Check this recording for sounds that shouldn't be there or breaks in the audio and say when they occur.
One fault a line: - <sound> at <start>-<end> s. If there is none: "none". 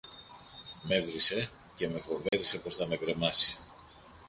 - dropout at 2.3-2.3 s